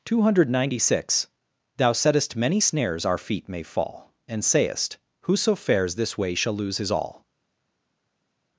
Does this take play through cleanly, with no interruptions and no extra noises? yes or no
yes